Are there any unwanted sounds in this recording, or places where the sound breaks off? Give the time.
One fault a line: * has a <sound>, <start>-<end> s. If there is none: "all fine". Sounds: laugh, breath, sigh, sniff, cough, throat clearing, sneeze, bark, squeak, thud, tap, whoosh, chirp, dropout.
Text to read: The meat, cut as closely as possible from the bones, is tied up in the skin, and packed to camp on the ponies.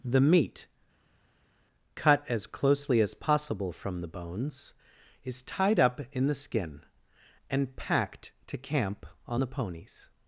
all fine